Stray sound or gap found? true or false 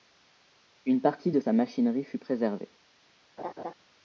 true